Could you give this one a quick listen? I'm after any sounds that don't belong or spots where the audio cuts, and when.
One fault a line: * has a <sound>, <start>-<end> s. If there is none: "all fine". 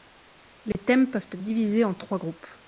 * has a dropout, 0.7-0.7 s